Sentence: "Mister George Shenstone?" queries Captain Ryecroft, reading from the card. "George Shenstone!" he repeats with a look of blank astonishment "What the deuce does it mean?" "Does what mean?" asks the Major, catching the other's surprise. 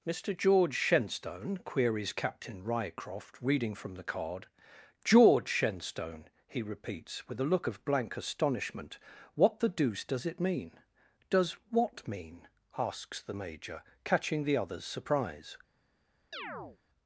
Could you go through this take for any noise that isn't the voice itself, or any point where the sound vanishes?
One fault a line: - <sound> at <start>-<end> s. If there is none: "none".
- chirp at 16.3-16.8 s